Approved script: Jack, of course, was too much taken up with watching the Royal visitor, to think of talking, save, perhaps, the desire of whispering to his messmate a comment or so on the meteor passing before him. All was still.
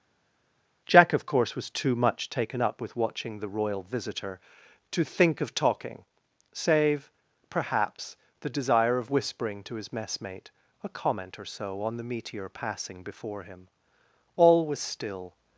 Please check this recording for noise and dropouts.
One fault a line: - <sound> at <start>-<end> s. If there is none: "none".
none